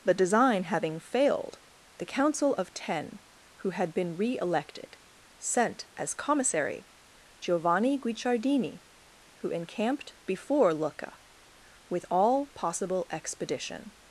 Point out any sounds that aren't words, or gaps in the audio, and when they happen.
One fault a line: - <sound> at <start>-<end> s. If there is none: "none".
none